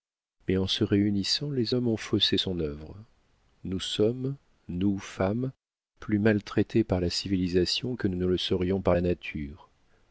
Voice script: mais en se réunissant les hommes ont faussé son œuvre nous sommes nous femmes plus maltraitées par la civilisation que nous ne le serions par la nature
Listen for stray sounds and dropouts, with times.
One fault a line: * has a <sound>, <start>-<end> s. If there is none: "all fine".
all fine